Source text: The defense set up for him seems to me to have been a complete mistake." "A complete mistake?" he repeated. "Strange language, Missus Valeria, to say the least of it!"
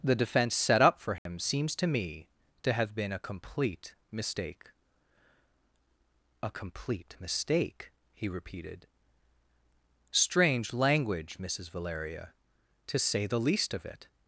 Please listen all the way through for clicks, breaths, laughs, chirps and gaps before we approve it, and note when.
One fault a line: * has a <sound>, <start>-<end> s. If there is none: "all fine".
* has a dropout, 1.2-1.3 s